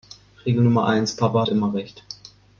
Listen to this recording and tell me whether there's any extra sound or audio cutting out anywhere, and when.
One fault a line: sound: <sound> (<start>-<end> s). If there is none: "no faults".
no faults